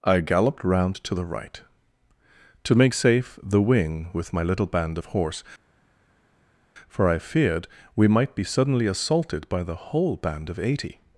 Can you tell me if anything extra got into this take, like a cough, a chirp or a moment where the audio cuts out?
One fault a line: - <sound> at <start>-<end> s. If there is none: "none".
none